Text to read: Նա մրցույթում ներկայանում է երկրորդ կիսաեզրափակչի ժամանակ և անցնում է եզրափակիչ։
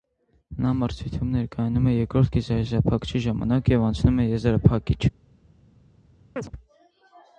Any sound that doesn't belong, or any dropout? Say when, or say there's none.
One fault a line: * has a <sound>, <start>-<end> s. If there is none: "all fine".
* has a chirp, 6.4-6.5 s